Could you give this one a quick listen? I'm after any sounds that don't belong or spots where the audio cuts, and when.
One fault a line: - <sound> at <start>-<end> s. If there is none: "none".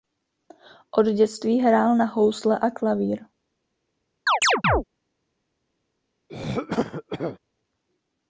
- chirp at 4.3-4.8 s
- throat clearing at 6.3-7.4 s